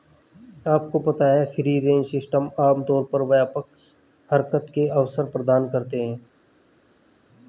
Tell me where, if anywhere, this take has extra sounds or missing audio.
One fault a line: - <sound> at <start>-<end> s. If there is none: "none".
none